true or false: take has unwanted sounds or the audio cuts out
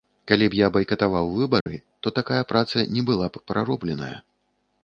true